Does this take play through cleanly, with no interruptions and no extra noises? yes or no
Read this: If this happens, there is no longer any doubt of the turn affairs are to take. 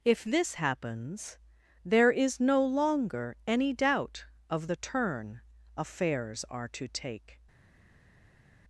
yes